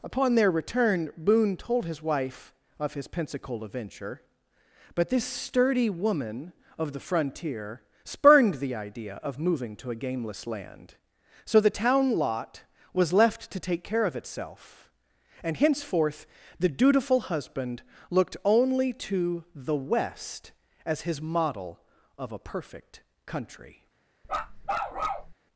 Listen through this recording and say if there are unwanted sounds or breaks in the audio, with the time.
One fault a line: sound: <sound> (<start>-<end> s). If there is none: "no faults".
sound: bark (24.2-25.3 s)